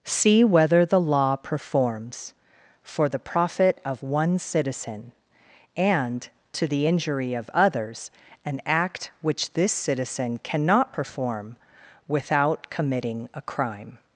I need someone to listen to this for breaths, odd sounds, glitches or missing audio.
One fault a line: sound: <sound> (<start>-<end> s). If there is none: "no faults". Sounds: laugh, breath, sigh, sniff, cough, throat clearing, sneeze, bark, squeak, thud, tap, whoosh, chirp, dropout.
no faults